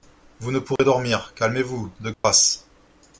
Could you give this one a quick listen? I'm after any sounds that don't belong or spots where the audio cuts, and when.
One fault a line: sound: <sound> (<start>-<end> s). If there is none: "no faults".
sound: dropout (0.8-0.8 s)
sound: dropout (2.1-2.2 s)